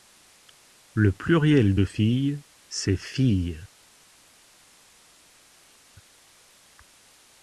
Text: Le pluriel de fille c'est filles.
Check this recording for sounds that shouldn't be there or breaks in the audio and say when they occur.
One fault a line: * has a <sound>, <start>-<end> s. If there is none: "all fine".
all fine